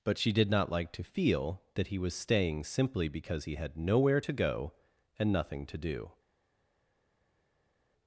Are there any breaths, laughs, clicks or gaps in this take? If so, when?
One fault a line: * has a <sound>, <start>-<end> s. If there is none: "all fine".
all fine